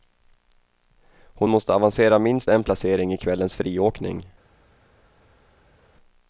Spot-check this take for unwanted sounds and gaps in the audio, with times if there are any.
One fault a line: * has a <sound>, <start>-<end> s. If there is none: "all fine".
all fine